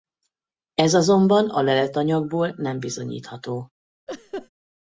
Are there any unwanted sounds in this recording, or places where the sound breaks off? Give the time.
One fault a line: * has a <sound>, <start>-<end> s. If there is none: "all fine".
* has a laugh, 4.1-4.5 s